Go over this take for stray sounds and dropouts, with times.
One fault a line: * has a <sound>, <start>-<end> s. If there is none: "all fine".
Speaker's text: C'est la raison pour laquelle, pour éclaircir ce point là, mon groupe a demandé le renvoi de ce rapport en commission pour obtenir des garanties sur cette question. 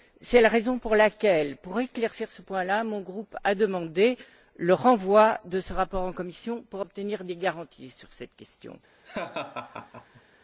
* has a laugh, 9.0-10.2 s